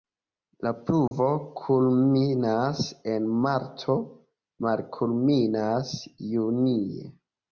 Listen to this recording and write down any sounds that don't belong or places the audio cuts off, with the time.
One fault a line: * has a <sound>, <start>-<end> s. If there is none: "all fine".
* has a dropout, 1.1-1.1 s